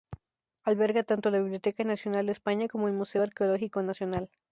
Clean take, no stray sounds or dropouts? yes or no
yes